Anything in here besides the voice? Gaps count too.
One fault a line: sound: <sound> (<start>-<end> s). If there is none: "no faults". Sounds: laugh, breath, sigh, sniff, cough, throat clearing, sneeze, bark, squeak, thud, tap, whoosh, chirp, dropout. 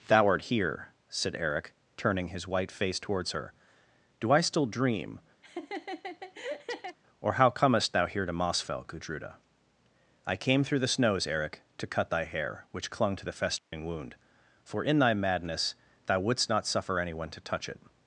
sound: laugh (5.4-7.0 s)
sound: dropout (13.6-13.7 s)